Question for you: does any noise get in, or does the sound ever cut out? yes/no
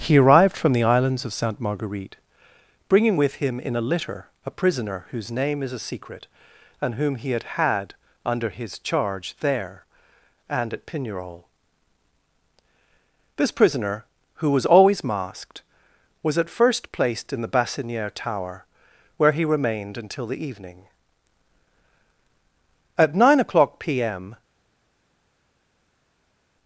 no